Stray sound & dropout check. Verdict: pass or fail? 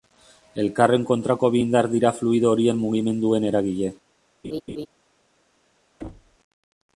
fail